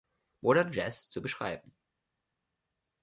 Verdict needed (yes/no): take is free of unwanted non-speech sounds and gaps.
yes